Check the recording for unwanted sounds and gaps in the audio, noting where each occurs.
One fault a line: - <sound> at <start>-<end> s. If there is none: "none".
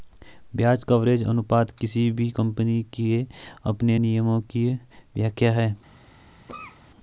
- cough at 6.5-6.8 s